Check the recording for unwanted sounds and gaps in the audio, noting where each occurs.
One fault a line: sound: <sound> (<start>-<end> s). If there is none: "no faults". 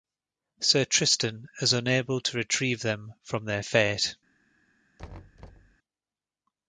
sound: thud (5.0-5.8 s)